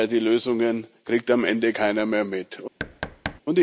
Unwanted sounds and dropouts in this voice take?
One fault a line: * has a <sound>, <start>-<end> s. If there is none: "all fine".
* has a thud, 2.8-3.4 s